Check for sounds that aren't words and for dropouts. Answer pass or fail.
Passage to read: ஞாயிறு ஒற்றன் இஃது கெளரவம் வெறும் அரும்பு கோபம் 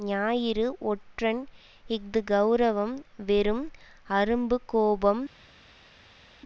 pass